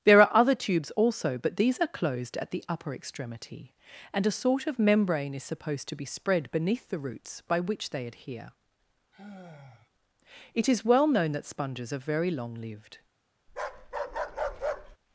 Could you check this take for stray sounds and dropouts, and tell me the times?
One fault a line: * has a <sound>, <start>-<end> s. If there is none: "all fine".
* has a sigh, 9.1-9.9 s
* has a bark, 13.5-15.0 s